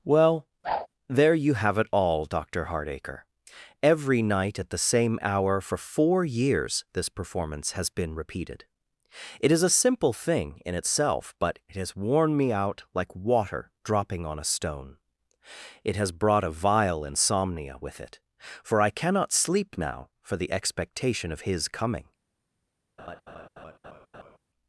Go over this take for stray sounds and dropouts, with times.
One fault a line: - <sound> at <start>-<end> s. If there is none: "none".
- whoosh at 0.6-0.9 s
- laugh at 23.0-24.4 s